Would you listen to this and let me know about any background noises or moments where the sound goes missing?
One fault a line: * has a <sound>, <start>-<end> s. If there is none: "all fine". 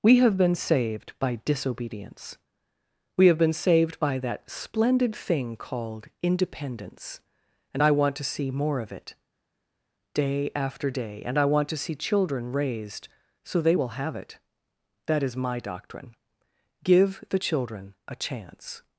all fine